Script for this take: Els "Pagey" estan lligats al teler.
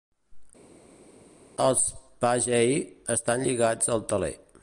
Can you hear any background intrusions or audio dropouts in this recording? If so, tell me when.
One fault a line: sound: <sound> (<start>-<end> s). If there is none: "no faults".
no faults